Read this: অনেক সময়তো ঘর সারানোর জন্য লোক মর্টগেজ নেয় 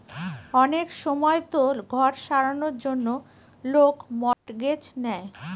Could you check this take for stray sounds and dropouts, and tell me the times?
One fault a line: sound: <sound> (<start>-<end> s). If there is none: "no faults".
sound: dropout (4.3-4.5 s)